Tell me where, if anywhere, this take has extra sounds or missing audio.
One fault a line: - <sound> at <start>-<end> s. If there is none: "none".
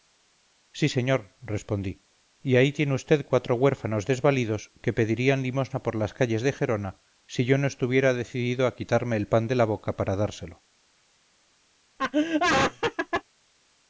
- laugh at 12.0-13.2 s